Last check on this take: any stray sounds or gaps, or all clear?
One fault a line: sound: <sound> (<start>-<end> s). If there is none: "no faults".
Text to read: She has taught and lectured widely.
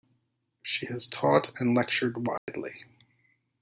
sound: dropout (2.4-2.5 s)